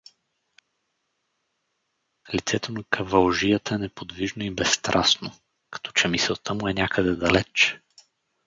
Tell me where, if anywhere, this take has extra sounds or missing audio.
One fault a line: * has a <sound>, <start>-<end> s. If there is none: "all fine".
all fine